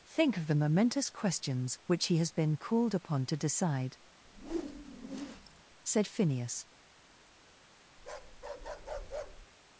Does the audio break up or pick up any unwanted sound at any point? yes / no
yes